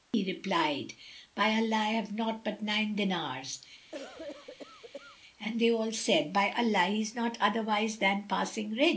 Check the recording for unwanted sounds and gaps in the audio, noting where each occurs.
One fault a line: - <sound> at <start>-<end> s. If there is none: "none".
- cough at 3.9-5.2 s